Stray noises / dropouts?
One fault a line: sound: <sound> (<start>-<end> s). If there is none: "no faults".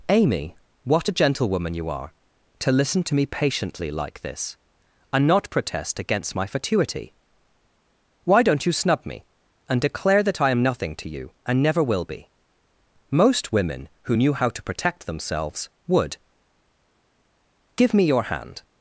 no faults